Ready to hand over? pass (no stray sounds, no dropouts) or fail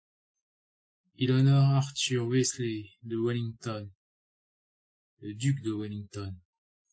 pass